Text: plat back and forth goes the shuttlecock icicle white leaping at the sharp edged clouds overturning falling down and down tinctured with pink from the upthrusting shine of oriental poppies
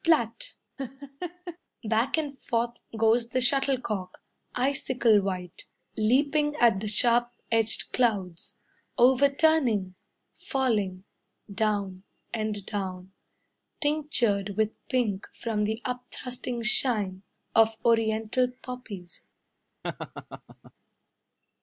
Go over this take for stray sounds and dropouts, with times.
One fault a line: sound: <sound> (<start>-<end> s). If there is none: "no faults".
sound: laugh (0.8-1.6 s)
sound: laugh (19.8-20.7 s)